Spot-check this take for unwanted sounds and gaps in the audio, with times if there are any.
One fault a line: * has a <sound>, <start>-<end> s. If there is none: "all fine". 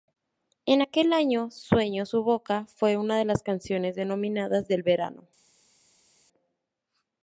all fine